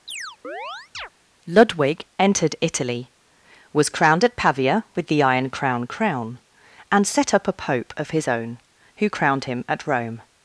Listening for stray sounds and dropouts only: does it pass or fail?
fail